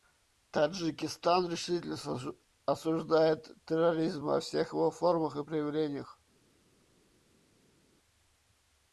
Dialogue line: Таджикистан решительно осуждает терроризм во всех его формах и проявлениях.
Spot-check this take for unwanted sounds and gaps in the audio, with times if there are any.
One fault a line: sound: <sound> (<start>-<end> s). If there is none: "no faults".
no faults